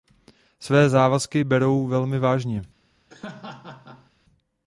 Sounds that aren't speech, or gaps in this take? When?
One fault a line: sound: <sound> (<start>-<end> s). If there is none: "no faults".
sound: laugh (3.1-4.1 s)